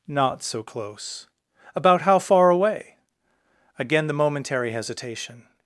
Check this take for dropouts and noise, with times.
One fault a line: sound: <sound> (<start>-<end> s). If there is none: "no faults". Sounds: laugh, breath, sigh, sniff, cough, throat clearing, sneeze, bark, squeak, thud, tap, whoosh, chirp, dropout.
no faults